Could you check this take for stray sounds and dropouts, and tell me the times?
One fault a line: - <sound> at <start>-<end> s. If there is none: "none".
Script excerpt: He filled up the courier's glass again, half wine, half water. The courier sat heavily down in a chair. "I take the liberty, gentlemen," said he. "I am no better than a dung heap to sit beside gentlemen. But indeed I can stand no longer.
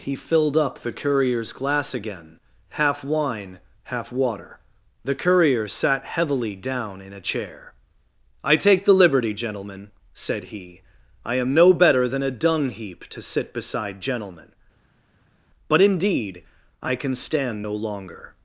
none